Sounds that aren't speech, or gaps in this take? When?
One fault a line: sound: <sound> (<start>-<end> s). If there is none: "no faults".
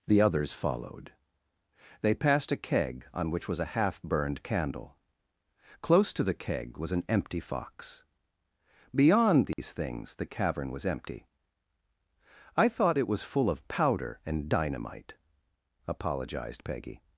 sound: dropout (9.5-9.6 s)